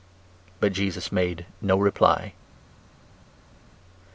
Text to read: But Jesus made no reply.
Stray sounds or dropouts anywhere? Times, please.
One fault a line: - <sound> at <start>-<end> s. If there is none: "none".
none